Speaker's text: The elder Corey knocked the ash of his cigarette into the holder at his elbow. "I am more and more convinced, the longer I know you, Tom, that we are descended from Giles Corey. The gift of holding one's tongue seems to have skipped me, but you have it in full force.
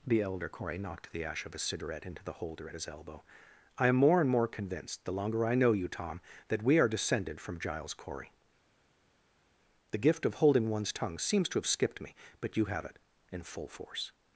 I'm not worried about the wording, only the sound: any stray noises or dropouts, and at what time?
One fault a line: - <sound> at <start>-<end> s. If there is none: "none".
none